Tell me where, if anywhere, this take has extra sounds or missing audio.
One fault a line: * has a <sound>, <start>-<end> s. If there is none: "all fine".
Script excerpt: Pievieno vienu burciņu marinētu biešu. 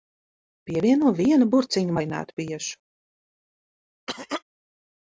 * has a cough, 4.1-4.4 s